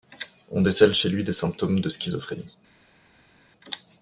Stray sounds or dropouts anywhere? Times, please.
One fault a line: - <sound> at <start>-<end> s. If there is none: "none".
none